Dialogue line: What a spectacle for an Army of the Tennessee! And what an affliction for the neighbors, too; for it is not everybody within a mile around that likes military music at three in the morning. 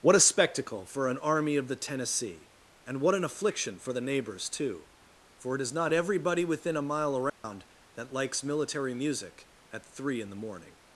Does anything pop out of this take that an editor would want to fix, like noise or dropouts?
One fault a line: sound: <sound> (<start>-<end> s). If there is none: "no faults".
sound: dropout (7.3-7.4 s)